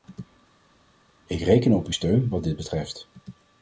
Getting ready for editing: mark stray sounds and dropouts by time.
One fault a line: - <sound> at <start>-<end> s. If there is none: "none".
none